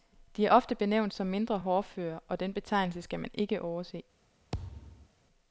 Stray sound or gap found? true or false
true